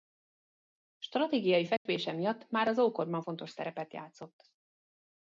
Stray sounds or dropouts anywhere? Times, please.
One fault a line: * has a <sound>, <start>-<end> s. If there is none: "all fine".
* has a dropout, 1.8-1.9 s